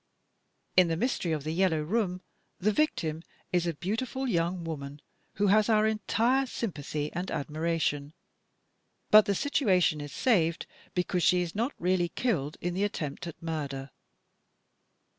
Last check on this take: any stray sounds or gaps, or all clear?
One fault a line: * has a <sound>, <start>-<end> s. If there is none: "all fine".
all fine